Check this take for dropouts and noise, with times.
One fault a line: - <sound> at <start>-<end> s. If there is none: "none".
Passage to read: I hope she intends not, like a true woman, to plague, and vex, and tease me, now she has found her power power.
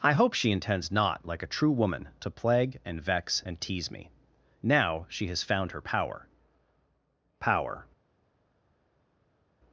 none